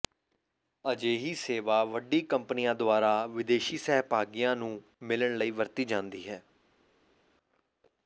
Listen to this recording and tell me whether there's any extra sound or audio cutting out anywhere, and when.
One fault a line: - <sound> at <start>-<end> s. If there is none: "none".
none